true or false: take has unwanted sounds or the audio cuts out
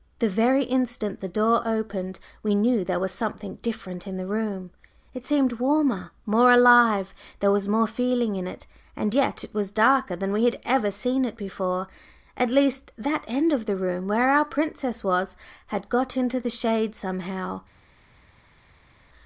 false